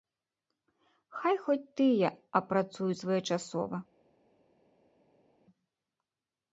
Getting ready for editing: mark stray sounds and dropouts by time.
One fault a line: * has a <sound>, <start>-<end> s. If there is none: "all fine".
all fine